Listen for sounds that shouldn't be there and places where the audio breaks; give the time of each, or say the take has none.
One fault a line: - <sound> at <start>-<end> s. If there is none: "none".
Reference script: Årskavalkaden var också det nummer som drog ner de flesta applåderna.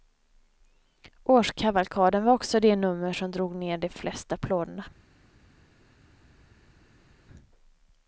none